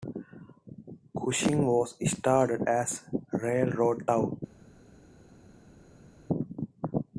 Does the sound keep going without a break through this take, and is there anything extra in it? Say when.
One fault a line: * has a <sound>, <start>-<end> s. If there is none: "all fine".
all fine